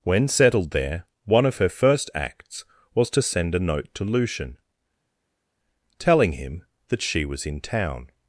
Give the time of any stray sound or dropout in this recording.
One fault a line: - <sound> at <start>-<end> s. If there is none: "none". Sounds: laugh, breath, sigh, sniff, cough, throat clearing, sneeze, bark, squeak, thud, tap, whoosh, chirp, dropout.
none